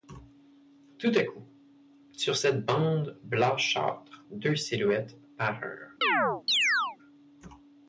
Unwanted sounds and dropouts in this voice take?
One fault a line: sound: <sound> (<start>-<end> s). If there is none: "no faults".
sound: chirp (6.0-7.0 s)